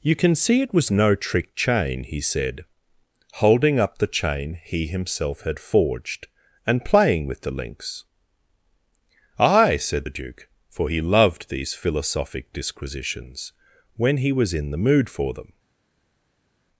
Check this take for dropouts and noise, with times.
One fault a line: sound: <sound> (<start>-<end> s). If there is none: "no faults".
no faults